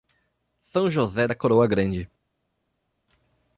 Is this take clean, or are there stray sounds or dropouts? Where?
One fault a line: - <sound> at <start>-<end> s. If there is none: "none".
none